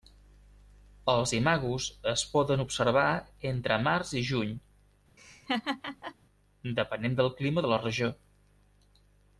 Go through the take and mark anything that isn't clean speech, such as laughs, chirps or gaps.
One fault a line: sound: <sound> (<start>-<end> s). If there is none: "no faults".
sound: laugh (5.2-6.2 s)